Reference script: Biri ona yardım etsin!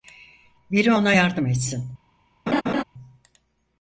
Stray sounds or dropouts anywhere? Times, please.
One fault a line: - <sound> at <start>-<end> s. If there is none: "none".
- laugh at 2.5-2.8 s